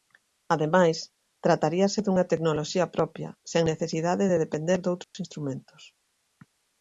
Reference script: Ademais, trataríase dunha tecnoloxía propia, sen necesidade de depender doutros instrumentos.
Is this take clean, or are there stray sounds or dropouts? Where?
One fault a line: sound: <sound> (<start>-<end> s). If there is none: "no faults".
sound: dropout (5.0-5.1 s)